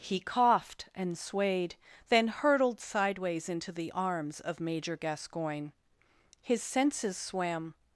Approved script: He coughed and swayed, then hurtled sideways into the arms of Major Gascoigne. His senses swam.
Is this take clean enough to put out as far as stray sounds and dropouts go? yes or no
yes